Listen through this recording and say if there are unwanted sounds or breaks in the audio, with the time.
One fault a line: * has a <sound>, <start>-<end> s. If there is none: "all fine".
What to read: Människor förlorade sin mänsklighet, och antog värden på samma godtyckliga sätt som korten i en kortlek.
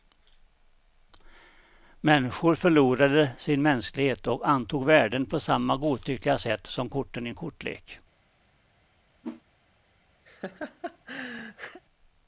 * has a whoosh, 9.2-9.4 s
* has a laugh, 10.3-11.8 s